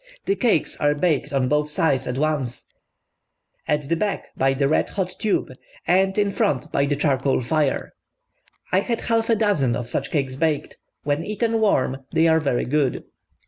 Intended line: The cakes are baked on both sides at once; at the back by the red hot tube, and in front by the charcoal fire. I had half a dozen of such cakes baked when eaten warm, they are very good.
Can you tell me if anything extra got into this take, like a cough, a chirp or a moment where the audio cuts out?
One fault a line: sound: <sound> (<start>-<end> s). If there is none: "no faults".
no faults